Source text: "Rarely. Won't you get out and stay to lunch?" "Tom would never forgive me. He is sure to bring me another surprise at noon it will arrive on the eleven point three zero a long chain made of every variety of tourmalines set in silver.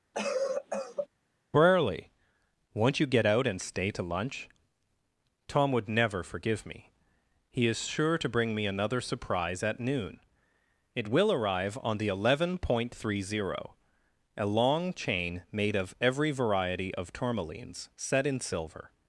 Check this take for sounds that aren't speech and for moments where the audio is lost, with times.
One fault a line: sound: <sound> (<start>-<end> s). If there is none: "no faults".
sound: cough (0.1-1.1 s)